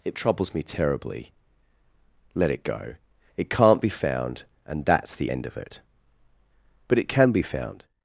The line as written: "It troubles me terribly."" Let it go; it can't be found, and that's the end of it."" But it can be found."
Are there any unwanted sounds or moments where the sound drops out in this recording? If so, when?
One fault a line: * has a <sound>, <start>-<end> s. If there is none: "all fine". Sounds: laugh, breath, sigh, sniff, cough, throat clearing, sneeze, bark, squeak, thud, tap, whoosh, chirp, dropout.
all fine